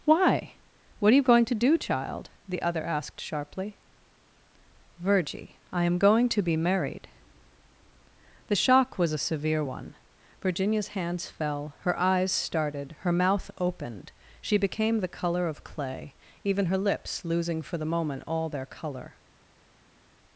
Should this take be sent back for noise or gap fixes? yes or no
no